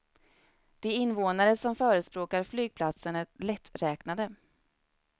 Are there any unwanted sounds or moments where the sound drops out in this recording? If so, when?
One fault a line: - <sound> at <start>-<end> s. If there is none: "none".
none